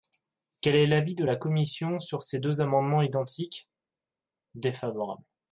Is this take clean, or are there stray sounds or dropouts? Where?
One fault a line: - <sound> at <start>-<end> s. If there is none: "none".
none